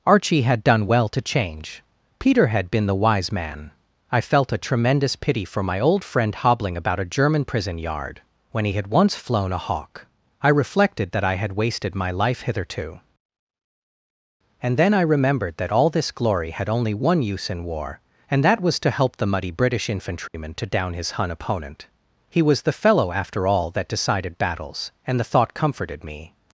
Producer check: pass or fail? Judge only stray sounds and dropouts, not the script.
fail